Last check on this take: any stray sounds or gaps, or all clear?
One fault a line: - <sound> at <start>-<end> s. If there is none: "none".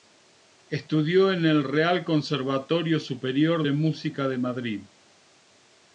none